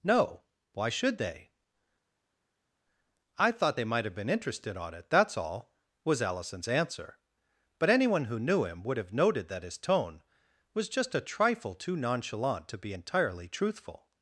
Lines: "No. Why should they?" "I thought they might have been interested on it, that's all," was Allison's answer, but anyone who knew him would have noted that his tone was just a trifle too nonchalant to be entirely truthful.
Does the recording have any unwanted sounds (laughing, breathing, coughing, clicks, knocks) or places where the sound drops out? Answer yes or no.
no